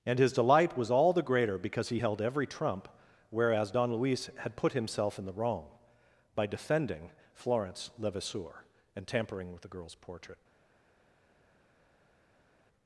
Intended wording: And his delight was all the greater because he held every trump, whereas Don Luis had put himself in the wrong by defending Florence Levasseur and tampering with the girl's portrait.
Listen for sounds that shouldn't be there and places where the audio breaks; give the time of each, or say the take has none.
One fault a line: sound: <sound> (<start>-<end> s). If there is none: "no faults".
no faults